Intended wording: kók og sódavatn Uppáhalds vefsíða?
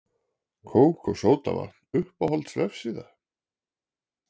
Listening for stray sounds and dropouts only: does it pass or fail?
pass